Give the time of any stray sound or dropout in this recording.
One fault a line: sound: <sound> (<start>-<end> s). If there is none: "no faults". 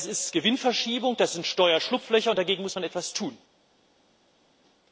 no faults